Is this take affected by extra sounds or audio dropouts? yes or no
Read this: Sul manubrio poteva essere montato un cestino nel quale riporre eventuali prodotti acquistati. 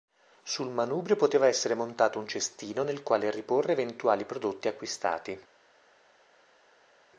no